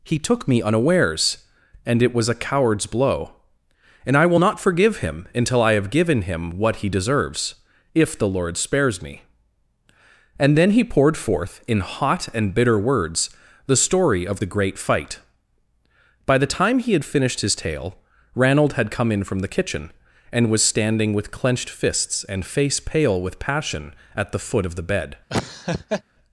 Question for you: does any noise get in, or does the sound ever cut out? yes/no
yes